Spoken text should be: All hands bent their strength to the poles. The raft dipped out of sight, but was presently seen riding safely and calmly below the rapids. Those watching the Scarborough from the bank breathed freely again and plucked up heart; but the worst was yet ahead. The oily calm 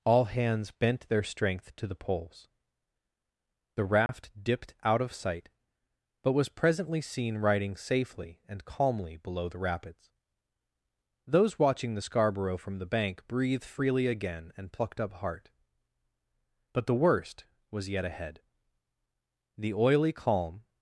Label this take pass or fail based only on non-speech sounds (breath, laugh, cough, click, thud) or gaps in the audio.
fail